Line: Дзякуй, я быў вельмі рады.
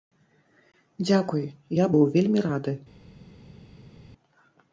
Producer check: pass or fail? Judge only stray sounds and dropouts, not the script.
pass